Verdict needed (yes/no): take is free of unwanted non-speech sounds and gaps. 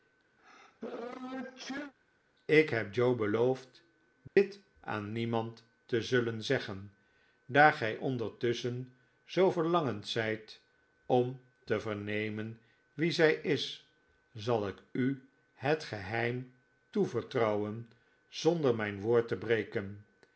no